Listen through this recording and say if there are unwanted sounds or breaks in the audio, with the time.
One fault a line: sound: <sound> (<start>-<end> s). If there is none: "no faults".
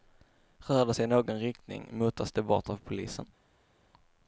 no faults